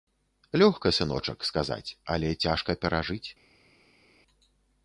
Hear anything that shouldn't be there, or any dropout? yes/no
no